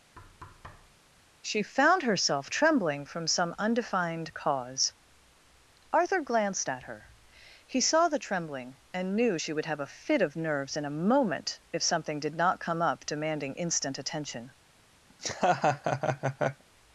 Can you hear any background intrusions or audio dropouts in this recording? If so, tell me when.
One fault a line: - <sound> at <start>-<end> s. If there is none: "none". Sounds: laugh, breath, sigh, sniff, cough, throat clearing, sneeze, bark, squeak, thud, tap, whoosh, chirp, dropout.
- thud at 0.2-1.0 s
- laugh at 15.1-16.6 s